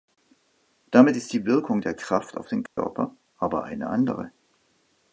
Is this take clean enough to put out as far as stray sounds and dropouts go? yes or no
no